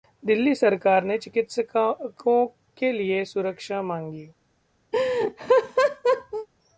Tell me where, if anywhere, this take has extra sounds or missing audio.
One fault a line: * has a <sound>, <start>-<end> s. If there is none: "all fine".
* has a laugh, 4.9-6.5 s